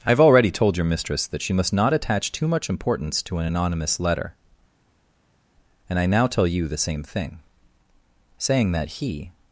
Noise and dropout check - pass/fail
pass